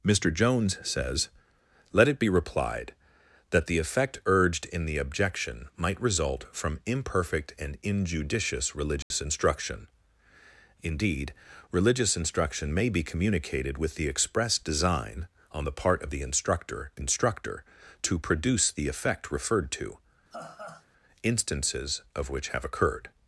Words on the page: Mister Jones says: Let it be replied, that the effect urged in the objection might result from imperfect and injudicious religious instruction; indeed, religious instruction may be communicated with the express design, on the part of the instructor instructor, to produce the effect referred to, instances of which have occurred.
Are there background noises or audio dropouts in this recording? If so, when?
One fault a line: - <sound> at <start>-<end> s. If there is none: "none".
- dropout at 9.0-9.1 s
- laugh at 20.3-20.9 s